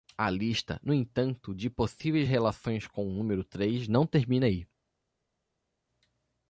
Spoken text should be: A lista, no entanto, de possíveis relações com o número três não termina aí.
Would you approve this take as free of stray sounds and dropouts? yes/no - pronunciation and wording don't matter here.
yes